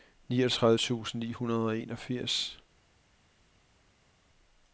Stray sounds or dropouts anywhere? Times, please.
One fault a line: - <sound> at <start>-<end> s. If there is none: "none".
none